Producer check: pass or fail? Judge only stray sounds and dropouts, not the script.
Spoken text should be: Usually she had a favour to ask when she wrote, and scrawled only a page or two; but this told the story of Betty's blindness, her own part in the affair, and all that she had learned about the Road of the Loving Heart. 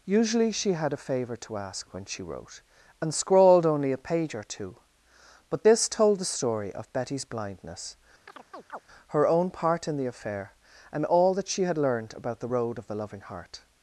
fail